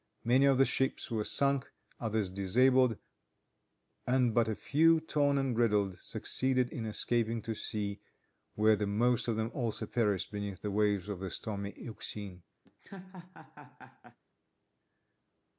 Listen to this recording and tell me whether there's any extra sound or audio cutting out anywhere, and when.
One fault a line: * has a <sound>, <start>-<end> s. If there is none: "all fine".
* has a laugh, 12.6-14.2 s